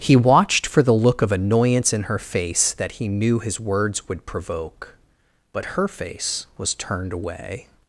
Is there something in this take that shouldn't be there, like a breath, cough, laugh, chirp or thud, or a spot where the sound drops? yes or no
no